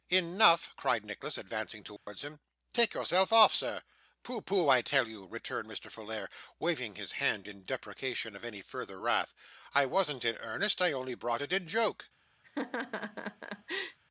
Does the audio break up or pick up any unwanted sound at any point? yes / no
yes